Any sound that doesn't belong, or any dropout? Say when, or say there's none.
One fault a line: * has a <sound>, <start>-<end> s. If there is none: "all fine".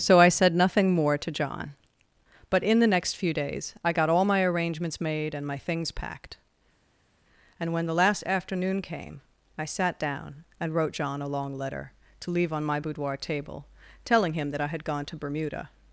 all fine